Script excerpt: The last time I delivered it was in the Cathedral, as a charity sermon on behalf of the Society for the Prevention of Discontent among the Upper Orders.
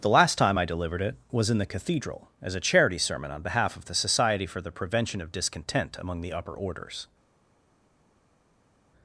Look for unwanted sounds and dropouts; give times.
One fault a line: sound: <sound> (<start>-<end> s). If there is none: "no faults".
no faults